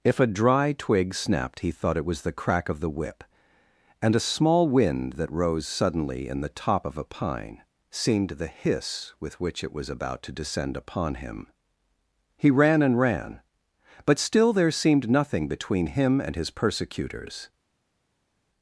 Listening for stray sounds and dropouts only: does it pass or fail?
pass